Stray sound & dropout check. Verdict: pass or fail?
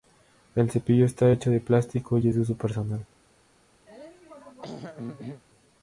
fail